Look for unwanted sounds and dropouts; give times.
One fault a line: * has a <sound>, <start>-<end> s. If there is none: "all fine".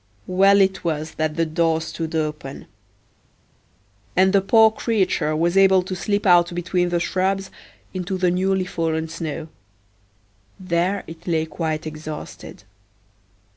all fine